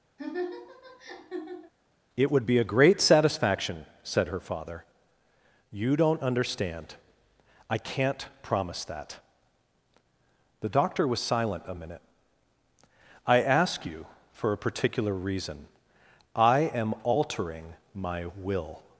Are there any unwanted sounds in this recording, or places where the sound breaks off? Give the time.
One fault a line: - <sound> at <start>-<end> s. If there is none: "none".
- laugh at 0.2-1.7 s